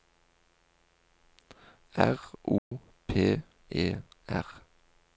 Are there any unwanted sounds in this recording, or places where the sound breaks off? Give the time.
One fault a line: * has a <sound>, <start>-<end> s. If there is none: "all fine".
* has a dropout, 2.6-2.7 s